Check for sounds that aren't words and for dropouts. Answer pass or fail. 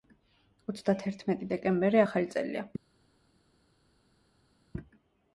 pass